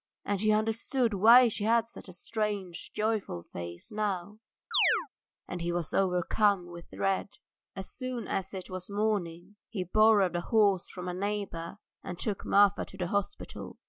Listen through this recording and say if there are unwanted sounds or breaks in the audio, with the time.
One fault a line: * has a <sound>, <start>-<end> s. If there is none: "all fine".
* has a chirp, 4.7-5.1 s